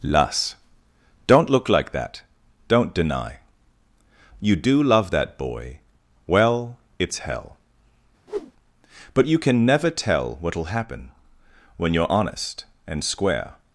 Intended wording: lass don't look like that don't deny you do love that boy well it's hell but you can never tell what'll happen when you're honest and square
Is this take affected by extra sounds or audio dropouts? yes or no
yes